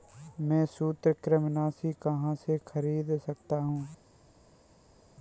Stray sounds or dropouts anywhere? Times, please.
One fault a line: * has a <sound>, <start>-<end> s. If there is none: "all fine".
all fine